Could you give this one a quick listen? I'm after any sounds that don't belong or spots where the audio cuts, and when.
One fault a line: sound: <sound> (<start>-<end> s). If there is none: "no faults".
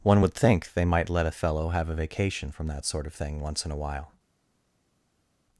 no faults